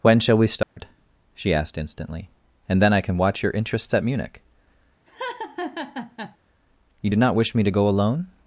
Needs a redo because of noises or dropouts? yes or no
yes